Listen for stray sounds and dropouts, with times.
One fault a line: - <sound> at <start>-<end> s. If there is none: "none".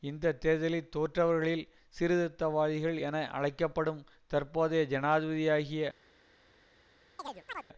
- chirp at 7.2-7.7 s